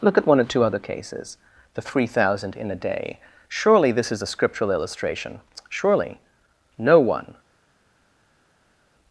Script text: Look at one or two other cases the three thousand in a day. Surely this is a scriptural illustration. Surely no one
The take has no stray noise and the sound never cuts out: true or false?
true